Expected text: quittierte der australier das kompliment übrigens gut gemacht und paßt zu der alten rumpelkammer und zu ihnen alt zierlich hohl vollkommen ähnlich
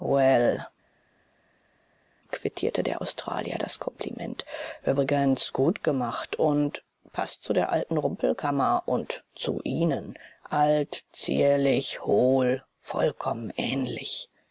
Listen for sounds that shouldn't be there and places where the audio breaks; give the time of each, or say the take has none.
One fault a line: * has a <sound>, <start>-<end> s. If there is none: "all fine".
all fine